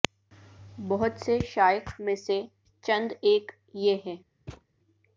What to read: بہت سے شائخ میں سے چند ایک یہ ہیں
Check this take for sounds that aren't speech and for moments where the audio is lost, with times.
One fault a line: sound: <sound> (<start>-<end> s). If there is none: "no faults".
sound: thud (4.5-4.7 s)